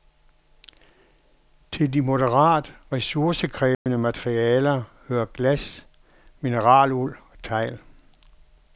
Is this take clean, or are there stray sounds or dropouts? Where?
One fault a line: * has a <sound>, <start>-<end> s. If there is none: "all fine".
* has a dropout, 3.7-3.9 s